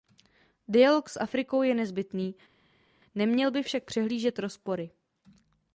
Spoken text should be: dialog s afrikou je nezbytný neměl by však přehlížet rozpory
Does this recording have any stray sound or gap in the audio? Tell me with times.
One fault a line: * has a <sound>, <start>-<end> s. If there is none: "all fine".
all fine